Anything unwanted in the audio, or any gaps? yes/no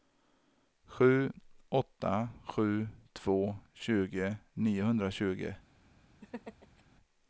yes